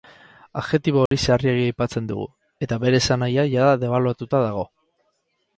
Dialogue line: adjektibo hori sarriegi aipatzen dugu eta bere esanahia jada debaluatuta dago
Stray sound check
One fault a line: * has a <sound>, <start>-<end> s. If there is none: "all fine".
* has a dropout, 1.1-1.1 s